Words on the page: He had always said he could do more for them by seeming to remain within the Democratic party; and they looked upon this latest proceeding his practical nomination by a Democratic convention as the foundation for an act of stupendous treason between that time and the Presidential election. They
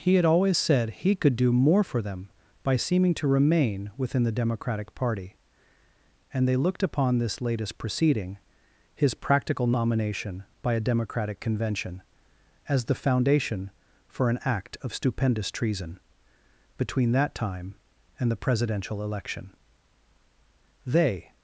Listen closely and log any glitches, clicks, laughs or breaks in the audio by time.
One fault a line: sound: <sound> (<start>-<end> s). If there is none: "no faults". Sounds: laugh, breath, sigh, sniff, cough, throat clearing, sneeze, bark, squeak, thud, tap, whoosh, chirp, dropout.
no faults